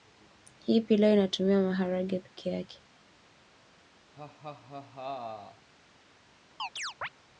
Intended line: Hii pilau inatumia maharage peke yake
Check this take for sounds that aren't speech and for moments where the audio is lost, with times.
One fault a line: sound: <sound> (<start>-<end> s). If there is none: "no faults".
sound: laugh (4.1-5.7 s)
sound: chirp (6.6-7.1 s)